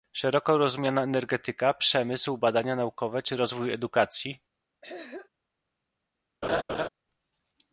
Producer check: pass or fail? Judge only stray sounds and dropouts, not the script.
fail